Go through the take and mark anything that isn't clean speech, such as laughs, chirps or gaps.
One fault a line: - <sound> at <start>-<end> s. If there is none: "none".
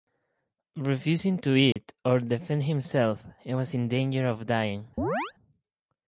- dropout at 1.7-1.8 s
- chirp at 5.0-5.3 s